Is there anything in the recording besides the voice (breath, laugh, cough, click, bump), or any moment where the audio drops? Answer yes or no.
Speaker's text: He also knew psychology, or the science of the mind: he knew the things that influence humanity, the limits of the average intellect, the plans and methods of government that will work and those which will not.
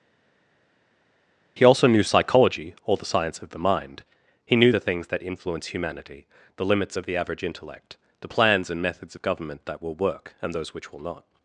no